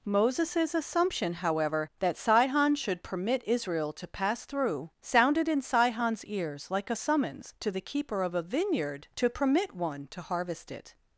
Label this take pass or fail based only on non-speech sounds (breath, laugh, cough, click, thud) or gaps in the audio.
pass